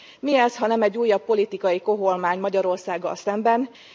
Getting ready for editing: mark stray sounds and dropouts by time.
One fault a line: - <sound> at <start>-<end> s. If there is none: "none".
none